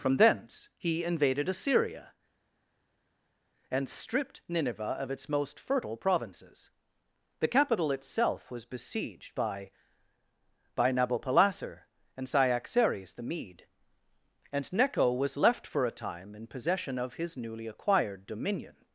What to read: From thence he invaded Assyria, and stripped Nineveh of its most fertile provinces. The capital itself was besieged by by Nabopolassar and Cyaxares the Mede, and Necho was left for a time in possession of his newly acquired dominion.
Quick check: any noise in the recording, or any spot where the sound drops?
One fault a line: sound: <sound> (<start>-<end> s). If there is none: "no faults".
no faults